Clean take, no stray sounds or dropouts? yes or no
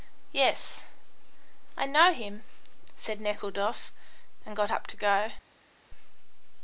yes